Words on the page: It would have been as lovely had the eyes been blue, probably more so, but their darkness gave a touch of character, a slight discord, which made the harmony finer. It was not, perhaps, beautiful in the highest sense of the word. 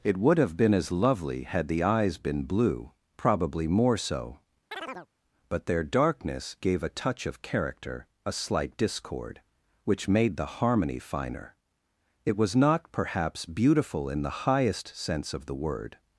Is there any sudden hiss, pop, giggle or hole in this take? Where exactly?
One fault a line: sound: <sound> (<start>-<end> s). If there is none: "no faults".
sound: chirp (4.7-5.1 s)